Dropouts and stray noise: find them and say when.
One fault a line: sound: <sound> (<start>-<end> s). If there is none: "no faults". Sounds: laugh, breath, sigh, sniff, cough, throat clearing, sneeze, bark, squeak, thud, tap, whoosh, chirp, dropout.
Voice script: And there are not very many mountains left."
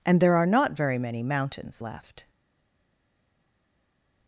no faults